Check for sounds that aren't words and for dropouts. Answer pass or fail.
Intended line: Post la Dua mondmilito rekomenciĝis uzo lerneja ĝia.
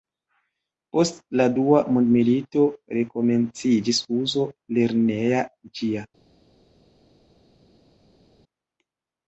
pass